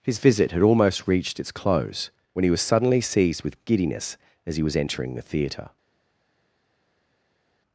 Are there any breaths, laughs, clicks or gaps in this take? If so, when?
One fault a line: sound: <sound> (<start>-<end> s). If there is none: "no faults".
no faults